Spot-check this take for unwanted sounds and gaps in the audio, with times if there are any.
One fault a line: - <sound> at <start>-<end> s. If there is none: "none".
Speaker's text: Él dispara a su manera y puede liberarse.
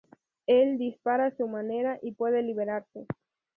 none